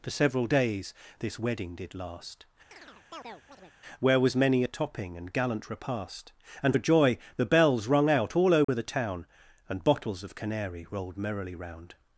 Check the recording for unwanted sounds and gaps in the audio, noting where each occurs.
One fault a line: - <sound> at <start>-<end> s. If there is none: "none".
- chirp at 2.7-3.8 s
- dropout at 8.6-8.7 s